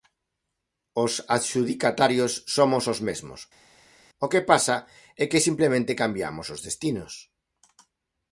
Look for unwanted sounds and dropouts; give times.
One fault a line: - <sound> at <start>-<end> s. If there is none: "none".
none